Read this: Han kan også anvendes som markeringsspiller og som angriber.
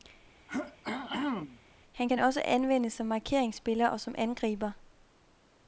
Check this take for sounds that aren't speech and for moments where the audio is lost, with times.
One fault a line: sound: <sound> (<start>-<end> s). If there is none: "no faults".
sound: throat clearing (0.5-1.6 s)